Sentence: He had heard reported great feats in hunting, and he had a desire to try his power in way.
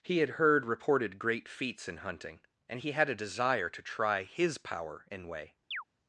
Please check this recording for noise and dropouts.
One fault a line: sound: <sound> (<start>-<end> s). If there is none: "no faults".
sound: chirp (5.7-5.8 s)